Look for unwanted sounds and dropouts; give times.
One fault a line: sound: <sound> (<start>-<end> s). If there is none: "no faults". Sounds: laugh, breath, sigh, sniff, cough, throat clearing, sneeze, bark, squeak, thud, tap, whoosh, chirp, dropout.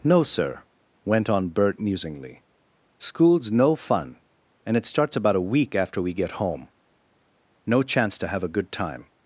no faults